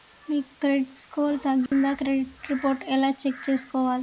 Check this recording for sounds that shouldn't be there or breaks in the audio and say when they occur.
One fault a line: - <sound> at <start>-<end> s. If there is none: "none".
- dropout at 1.7-1.7 s